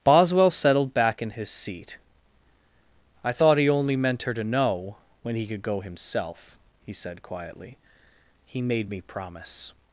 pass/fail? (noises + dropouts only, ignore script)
pass